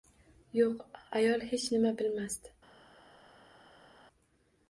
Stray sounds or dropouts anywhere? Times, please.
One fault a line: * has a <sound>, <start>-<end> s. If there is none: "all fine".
all fine